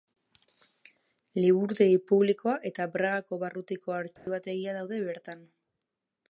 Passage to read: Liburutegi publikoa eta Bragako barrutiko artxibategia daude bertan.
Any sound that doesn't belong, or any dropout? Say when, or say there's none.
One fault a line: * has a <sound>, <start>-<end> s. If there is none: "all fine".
* has a dropout, 4.2-4.3 s